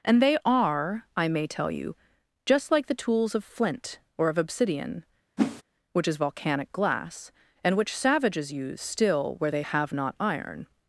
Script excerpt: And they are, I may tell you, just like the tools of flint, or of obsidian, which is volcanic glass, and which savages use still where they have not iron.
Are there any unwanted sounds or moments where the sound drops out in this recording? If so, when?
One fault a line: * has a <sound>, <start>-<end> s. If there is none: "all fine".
* has a whoosh, 5.4-5.6 s